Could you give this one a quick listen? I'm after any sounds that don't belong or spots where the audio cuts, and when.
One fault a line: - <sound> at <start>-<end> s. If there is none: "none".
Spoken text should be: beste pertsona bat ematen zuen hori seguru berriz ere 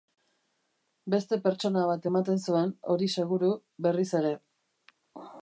none